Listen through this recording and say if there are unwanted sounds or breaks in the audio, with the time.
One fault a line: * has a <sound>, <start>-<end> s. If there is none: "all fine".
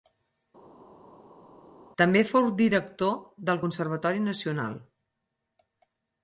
all fine